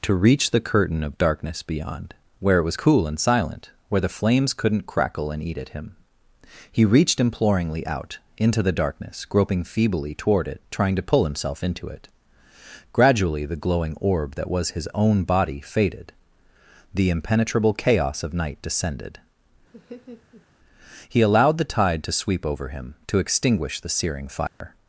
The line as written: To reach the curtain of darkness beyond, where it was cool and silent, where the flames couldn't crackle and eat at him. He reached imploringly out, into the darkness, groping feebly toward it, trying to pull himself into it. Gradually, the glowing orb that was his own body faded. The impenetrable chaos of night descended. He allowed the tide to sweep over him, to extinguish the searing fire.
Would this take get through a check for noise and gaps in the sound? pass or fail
fail